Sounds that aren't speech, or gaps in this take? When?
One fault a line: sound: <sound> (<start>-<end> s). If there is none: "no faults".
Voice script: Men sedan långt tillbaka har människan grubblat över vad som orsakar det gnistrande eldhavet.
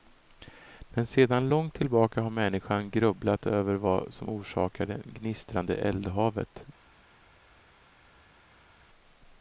no faults